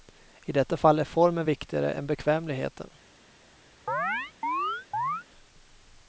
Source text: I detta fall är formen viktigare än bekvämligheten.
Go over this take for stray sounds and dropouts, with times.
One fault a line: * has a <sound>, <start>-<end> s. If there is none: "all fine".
* has a chirp, 3.9-5.2 s